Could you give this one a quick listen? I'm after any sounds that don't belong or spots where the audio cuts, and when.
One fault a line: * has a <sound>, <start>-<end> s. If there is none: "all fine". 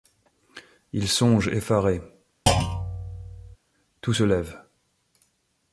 * has a thud, 2.5-3.6 s